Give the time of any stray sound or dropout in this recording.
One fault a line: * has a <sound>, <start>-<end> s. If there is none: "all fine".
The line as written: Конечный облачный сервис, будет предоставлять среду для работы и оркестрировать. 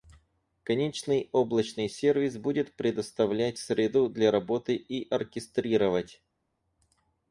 all fine